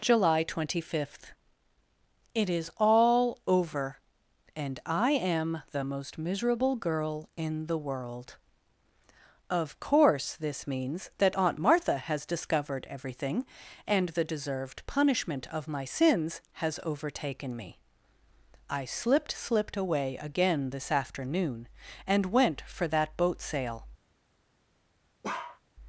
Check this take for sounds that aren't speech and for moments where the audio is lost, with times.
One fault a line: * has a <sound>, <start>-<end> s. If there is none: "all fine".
* has a bark, 25.2-25.6 s